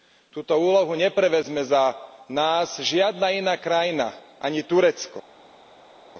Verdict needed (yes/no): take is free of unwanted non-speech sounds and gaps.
yes